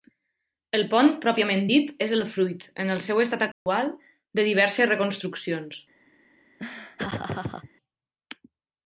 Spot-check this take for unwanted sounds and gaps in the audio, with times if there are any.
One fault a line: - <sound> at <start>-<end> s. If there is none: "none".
- dropout at 3.5-3.7 s
- laugh at 6.6-7.7 s